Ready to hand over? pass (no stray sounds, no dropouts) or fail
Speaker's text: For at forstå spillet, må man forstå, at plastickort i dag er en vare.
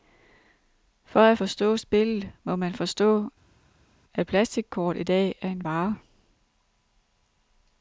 pass